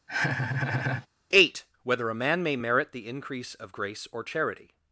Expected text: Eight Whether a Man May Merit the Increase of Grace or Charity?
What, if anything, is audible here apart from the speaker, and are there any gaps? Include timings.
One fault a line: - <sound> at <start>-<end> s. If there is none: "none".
- laugh at 0.1-1.1 s